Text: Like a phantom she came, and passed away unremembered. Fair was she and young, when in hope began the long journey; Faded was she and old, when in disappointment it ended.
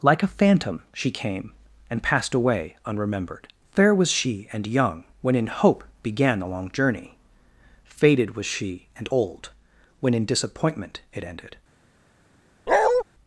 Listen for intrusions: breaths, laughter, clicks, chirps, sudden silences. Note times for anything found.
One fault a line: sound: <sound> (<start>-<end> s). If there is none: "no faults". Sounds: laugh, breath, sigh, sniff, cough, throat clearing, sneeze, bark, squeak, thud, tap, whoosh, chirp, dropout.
sound: bark (12.7-13.0 s)